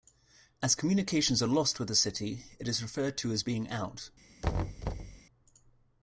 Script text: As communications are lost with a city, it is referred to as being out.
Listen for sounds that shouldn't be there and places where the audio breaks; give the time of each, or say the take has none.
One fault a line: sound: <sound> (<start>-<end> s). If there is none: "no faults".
sound: thud (4.4-5.2 s)